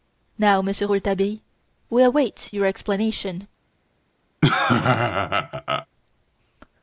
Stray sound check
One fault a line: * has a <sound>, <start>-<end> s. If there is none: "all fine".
* has a laugh, 4.4-5.9 s